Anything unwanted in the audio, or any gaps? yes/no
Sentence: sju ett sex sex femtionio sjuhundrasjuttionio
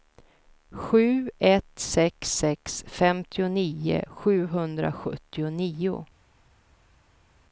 no